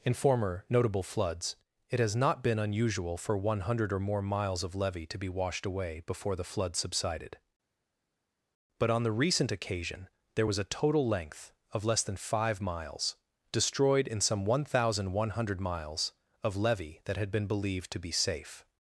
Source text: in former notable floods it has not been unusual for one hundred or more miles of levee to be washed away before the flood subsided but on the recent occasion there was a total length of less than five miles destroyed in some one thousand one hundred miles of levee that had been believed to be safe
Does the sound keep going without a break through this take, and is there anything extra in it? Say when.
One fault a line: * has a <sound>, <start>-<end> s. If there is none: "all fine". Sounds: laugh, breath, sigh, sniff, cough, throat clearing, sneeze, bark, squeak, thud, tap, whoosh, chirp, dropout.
all fine